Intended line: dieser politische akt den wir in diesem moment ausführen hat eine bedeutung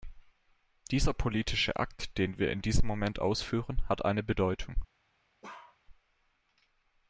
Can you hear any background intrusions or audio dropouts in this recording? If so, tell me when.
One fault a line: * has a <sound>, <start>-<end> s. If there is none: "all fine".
* has a bark, 5.4-5.8 s